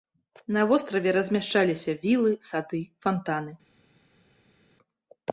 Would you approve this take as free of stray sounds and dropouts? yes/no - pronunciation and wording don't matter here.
yes